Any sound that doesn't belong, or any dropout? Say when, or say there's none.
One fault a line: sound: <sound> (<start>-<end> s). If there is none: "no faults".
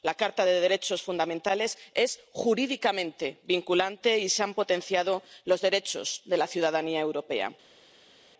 no faults